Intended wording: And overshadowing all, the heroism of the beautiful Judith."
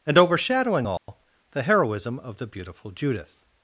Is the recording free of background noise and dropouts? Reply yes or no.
no